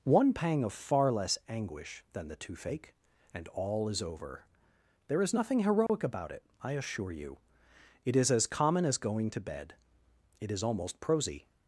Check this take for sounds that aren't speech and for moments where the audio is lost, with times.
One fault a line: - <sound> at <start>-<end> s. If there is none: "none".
- dropout at 5.9-5.9 s